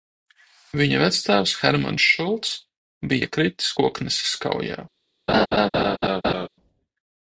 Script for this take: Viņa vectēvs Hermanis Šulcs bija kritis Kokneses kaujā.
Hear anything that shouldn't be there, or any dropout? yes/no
yes